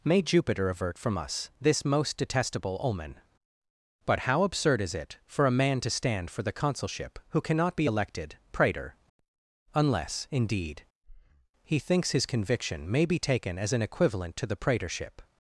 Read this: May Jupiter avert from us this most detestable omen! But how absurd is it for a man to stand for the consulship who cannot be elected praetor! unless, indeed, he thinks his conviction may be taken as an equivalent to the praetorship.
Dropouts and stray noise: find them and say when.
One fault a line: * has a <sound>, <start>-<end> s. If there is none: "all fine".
* has a breath, 11.0-11.5 s